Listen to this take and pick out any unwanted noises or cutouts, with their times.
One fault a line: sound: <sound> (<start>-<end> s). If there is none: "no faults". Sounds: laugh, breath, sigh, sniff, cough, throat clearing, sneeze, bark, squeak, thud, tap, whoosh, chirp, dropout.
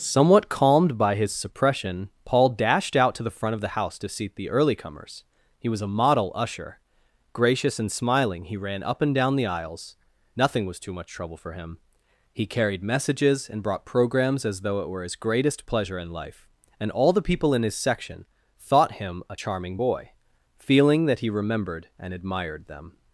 no faults